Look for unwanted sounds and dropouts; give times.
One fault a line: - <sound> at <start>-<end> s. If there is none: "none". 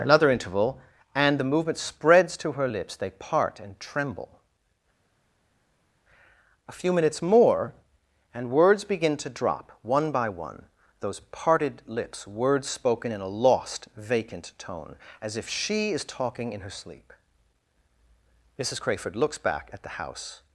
none